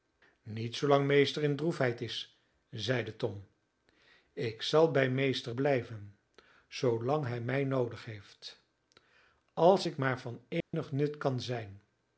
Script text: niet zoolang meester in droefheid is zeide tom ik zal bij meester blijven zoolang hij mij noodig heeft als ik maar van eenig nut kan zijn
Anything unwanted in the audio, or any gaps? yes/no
yes